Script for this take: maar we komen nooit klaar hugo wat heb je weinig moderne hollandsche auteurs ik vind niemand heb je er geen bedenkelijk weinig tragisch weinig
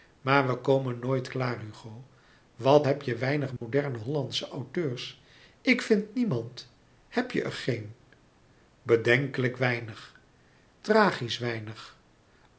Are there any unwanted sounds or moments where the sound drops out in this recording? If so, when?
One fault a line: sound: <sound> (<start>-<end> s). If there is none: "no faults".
sound: dropout (3.6-3.6 s)